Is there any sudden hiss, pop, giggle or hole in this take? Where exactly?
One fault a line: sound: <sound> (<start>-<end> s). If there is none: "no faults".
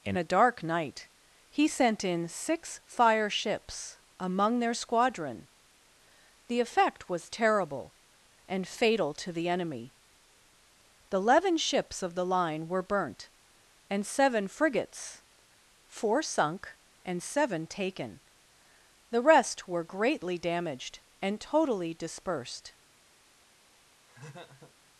sound: laugh (24.1-24.7 s)